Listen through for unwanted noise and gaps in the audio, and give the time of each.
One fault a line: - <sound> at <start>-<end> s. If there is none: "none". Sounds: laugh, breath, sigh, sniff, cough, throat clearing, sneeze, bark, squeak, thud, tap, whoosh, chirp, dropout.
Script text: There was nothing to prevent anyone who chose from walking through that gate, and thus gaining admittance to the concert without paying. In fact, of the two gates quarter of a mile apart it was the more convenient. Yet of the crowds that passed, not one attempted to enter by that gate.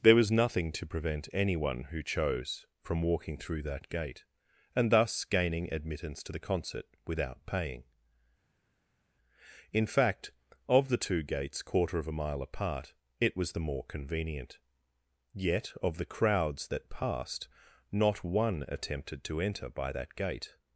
none